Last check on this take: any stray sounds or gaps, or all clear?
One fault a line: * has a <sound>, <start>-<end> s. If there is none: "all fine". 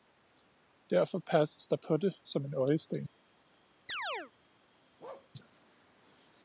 * has a chirp, 3.9-4.3 s
* has a bark, 5.0-5.3 s